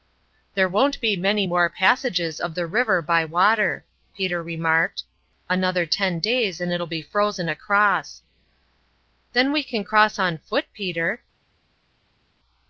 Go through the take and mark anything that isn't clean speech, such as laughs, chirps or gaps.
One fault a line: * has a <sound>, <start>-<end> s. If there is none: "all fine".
all fine